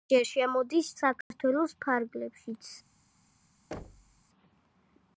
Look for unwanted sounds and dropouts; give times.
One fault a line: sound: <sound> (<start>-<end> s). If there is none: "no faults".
sound: dropout (1.2-1.3 s)
sound: thud (3.7-4.2 s)